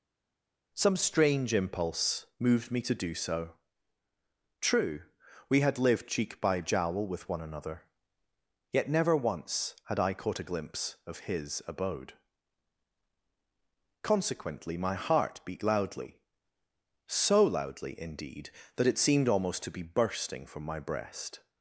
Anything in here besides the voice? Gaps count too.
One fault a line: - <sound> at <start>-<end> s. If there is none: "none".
none